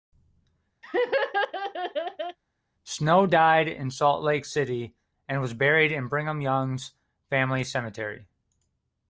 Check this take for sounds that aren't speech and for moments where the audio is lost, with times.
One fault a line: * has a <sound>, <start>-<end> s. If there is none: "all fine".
* has a laugh, 0.8-2.4 s